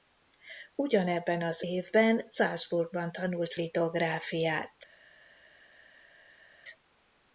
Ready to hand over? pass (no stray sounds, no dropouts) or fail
pass